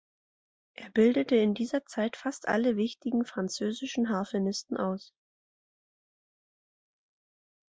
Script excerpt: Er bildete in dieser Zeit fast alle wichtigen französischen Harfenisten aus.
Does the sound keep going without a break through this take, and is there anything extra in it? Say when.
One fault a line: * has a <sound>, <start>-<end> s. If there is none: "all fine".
all fine